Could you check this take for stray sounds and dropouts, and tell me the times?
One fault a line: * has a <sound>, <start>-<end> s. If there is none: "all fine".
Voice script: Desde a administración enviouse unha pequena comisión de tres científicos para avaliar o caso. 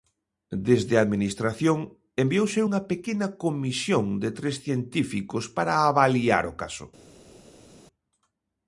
all fine